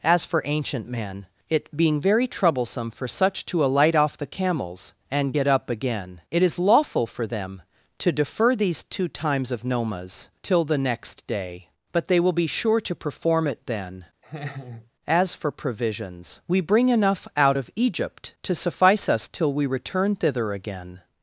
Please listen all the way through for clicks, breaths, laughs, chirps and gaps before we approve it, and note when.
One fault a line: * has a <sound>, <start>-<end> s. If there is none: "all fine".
* has a laugh, 14.2-14.9 s